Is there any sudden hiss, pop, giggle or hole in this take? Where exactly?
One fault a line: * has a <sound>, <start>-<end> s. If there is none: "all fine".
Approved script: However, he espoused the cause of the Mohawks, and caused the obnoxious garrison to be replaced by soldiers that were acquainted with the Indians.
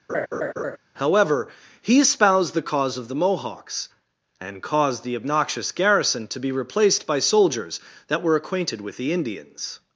* has a laugh, 0.1-0.8 s